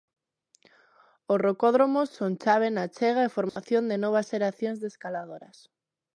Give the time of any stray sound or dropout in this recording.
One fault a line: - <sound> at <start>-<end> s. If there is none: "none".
- dropout at 3.5-3.6 s